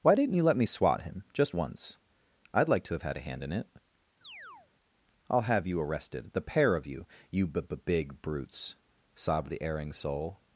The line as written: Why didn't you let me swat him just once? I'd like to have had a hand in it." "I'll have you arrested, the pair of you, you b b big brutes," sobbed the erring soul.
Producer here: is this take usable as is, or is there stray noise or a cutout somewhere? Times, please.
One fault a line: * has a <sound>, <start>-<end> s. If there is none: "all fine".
* has a chirp, 4.2-4.7 s